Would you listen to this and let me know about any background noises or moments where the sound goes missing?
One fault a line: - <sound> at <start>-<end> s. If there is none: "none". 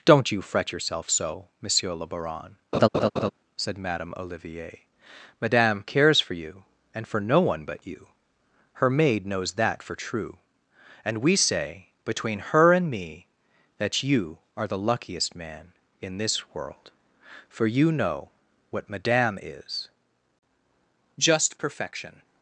- laugh at 2.7-3.3 s